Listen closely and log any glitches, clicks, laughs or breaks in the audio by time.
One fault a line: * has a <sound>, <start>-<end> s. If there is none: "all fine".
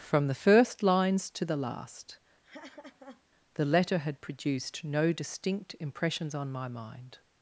* has a laugh, 2.4-3.2 s